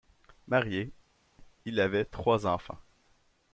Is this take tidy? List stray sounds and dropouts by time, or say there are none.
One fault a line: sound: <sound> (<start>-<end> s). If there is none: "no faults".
no faults